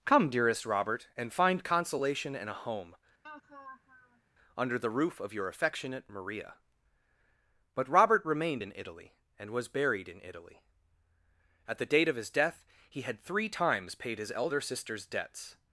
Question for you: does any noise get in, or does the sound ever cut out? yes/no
yes